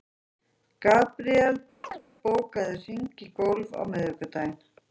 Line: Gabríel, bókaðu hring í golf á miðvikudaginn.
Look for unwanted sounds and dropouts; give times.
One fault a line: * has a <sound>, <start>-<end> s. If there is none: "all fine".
* has a chirp, 1.8-2.0 s